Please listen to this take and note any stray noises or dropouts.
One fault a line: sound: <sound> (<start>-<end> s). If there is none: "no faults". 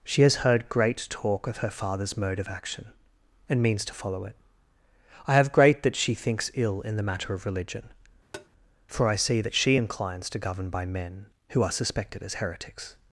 sound: tap (8.3-8.5 s)